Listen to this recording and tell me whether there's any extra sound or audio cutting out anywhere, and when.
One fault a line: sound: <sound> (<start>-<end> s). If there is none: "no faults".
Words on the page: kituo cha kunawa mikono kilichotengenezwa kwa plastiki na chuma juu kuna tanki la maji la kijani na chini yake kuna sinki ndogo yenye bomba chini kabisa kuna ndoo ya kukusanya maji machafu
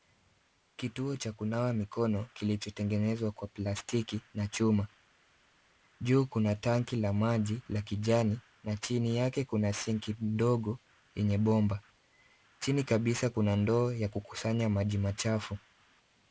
no faults